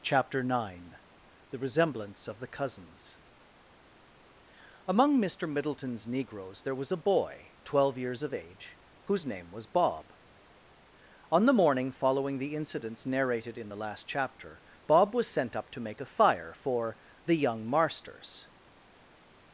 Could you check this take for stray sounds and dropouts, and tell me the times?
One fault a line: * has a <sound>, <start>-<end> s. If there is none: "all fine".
all fine